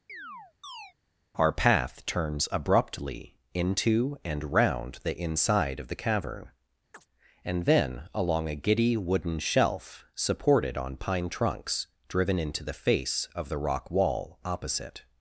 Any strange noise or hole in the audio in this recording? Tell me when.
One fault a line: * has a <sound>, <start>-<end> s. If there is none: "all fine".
* has a chirp, 0.1-0.9 s
* has a chirp, 6.9-7.1 s